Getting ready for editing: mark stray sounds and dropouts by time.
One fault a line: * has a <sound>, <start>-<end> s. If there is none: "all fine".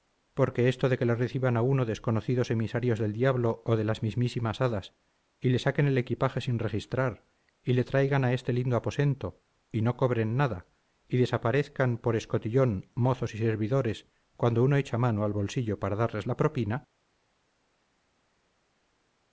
all fine